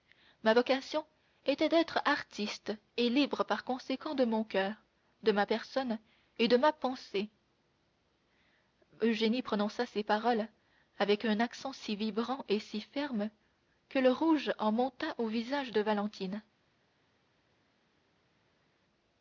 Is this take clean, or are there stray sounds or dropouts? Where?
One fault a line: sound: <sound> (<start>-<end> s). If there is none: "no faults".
no faults